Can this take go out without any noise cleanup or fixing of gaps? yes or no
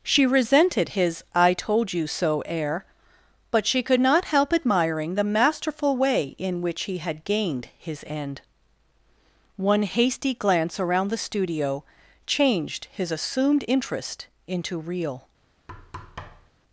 no